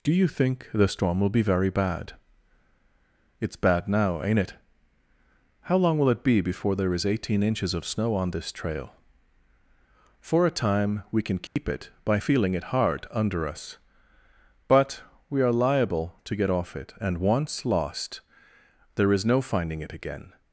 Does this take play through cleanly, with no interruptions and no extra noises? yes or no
no